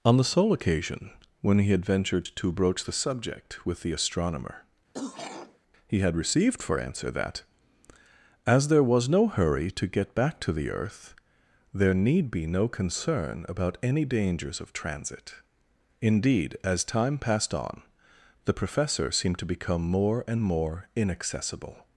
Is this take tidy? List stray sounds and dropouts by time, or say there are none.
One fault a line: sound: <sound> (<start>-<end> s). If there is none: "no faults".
sound: throat clearing (4.9-5.6 s)